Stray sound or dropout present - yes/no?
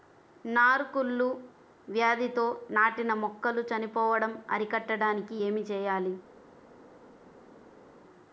no